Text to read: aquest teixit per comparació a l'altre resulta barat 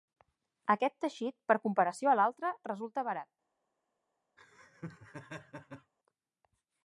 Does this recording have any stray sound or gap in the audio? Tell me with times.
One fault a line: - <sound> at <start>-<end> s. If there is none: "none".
- laugh at 4.4-5.9 s